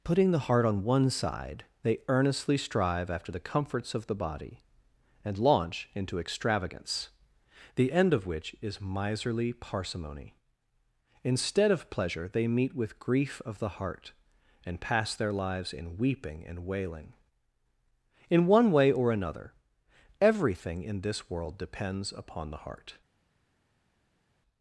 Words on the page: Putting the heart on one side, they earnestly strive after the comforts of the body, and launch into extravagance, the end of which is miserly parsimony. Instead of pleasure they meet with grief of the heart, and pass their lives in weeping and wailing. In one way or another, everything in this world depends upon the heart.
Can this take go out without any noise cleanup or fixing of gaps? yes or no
yes